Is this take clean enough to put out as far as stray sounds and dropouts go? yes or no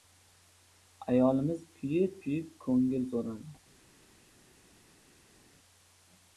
yes